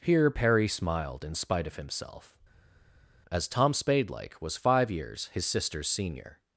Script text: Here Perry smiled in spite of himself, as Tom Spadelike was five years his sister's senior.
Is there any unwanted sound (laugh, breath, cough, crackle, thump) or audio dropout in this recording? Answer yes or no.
no